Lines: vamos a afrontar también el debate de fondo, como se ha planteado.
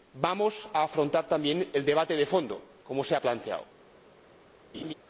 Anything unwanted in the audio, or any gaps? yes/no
yes